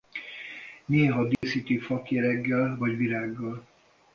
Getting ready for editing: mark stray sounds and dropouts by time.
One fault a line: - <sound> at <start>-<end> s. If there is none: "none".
- dropout at 1.3-1.4 s